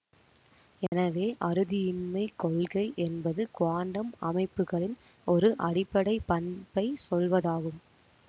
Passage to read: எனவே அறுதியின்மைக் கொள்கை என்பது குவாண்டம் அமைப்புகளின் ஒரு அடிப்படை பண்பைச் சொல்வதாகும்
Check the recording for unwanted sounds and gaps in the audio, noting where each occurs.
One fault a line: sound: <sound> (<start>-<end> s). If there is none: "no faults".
sound: dropout (0.9-0.9 s)